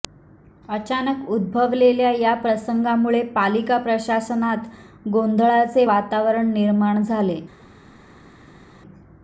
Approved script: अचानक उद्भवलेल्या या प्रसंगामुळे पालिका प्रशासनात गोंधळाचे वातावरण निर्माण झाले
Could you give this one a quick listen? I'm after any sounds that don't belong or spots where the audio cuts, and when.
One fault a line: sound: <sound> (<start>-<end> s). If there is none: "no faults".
no faults